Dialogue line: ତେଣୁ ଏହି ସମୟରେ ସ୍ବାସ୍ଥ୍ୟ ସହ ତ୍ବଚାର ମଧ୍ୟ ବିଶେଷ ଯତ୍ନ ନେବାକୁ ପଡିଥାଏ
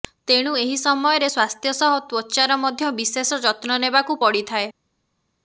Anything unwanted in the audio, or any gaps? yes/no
no